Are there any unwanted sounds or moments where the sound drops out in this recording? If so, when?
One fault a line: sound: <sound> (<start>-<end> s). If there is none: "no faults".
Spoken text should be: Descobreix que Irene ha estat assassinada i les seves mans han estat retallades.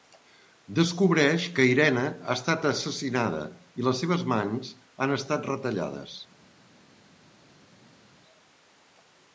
no faults